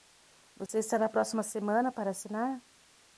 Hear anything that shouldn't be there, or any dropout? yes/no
yes